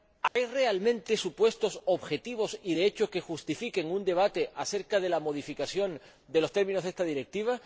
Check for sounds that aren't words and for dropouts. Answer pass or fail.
fail